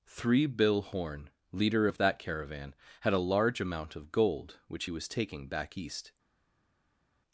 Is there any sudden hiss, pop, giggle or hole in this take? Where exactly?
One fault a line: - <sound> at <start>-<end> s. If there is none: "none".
none